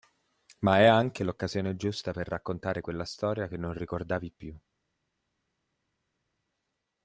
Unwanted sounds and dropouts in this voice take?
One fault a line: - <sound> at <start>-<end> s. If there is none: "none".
none